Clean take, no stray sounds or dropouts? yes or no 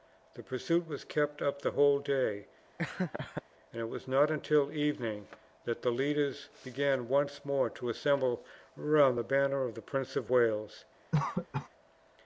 no